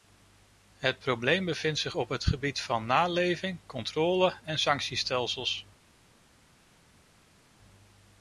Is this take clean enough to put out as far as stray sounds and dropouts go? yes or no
yes